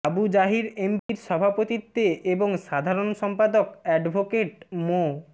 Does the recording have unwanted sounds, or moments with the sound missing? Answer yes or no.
yes